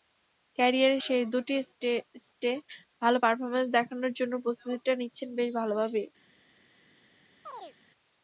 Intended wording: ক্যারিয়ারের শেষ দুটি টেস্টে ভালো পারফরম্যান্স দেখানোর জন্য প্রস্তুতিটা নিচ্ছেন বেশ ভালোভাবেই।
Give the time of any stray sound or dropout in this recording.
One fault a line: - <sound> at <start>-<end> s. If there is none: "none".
- chirp at 7.4-7.8 s